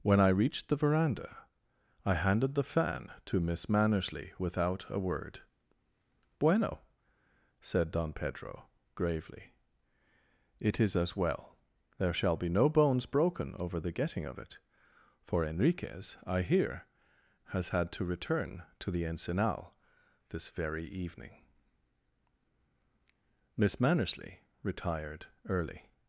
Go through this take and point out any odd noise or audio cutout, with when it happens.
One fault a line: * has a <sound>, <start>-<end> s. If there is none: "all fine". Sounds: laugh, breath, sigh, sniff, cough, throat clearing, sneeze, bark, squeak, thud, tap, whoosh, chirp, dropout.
all fine